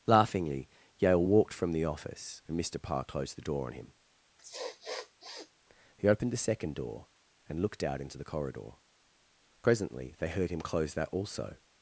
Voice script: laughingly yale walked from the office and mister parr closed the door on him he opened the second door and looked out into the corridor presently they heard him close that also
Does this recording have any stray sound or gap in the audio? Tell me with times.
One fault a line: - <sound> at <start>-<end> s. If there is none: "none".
- sniff at 4.4-5.5 s